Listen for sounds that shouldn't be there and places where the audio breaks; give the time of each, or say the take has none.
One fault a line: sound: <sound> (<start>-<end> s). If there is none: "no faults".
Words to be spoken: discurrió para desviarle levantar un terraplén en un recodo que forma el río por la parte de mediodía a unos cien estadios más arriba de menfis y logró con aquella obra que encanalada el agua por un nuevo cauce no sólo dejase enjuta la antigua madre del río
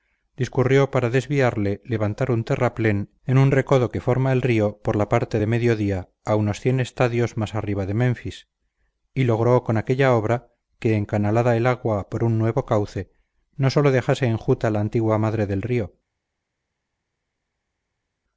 no faults